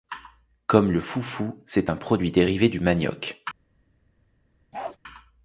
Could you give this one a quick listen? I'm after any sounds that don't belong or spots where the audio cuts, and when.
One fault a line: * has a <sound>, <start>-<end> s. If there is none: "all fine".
* has a bark, 4.7-5.0 s